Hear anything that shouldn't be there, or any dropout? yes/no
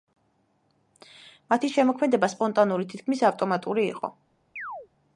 yes